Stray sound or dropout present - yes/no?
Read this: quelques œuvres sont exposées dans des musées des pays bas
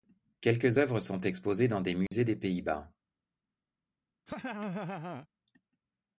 yes